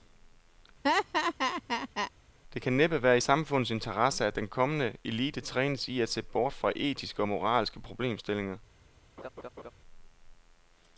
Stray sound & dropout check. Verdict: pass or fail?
fail